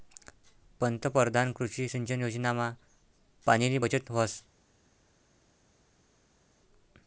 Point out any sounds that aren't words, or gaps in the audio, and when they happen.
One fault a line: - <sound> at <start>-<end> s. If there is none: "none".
none